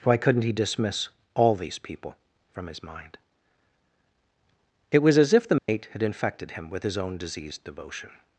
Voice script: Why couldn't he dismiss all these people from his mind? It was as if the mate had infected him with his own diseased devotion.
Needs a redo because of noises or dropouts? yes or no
yes